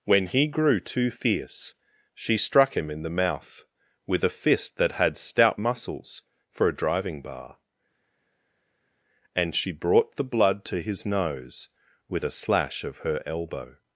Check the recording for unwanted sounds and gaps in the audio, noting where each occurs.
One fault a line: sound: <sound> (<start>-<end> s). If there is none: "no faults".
no faults